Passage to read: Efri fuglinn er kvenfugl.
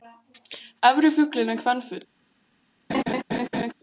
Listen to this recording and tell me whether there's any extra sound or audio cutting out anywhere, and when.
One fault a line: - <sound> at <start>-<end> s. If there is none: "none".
- laugh at 2.9-3.7 s